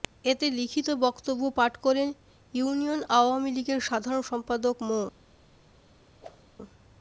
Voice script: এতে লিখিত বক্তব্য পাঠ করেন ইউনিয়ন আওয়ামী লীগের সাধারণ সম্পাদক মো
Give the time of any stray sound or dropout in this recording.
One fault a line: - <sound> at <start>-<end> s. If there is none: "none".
- whoosh at 6.2-6.5 s